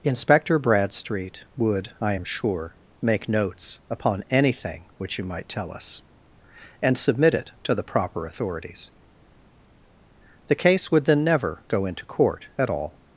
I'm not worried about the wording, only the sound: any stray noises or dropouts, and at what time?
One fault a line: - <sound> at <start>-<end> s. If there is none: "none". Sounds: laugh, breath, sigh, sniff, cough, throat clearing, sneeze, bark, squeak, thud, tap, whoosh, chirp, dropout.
none